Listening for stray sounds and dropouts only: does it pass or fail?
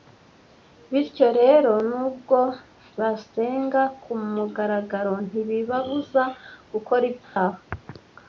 fail